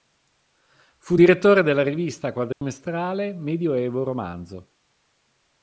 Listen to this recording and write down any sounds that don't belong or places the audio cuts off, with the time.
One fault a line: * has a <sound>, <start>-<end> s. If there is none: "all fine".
* has a dropout, 2.5-2.6 s